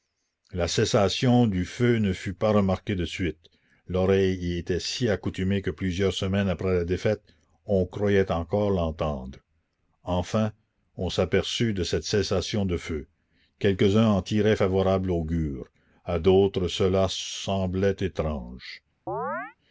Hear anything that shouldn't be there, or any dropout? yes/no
yes